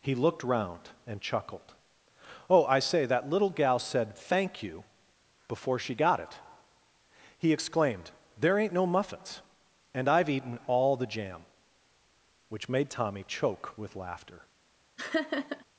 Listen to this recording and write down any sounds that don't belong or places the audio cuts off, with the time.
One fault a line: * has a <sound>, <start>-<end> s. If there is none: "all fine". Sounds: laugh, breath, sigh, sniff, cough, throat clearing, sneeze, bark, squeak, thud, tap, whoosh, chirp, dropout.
* has a laugh, 15.0-15.6 s